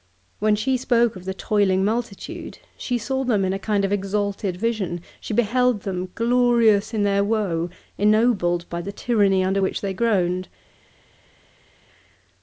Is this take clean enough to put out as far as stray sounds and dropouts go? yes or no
yes